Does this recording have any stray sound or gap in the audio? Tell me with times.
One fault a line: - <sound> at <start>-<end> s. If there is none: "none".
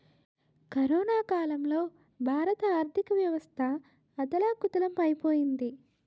none